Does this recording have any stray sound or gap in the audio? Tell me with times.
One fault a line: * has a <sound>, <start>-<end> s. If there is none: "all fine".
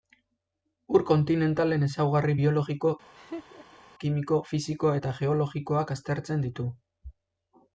* has a laugh, 3.1-3.8 s